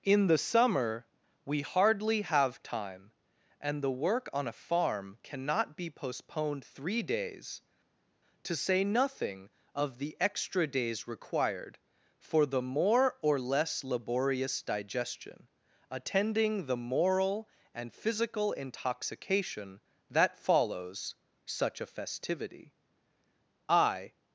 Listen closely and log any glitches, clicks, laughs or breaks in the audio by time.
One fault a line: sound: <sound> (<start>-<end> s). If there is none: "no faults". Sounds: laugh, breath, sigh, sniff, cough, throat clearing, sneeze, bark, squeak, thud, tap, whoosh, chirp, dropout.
no faults